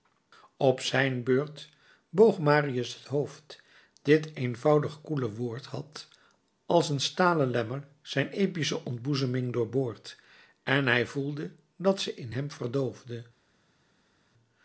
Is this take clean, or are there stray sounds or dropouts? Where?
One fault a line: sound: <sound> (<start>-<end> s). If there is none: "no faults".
no faults